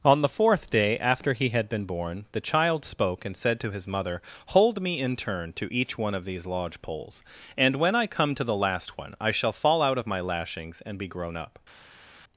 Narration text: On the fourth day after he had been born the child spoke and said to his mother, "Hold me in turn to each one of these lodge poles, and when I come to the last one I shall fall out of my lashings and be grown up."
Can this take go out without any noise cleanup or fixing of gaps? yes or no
yes